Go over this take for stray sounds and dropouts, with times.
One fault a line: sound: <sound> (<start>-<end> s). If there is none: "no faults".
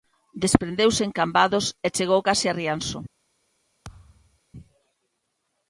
sound: thud (3.8-4.4 s)